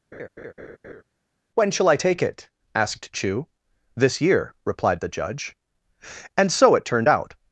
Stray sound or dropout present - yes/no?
yes